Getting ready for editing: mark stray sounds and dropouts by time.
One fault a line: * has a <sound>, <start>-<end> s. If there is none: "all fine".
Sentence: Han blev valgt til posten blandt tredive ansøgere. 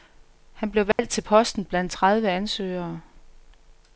* has a dropout, 0.9-1.0 s